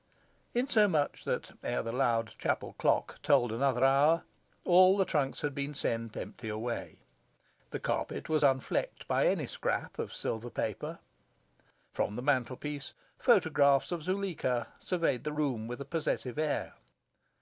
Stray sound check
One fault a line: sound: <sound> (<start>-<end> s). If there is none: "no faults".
no faults